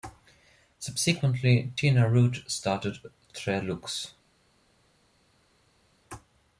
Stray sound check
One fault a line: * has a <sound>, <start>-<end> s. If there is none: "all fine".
all fine